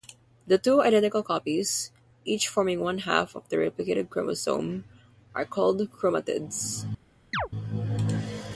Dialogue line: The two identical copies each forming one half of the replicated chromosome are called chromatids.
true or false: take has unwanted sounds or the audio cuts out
true